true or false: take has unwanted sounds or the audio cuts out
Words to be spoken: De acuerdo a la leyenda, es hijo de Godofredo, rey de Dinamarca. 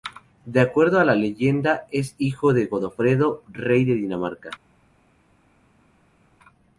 false